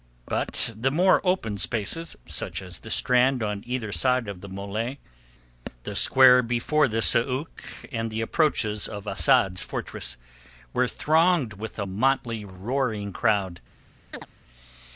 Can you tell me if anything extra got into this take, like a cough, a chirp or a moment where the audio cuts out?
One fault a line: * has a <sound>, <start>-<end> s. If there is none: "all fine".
* has a chirp, 14.1-14.3 s